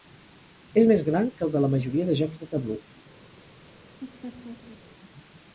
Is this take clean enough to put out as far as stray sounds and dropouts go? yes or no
no